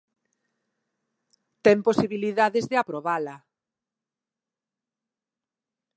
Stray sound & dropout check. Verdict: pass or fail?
pass